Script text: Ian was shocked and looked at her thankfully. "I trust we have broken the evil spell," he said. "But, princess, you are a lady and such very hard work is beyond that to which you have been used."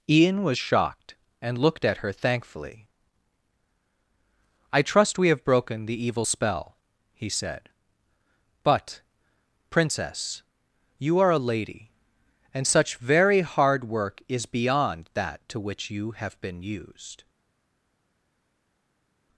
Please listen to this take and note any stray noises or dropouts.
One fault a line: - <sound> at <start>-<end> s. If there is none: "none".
none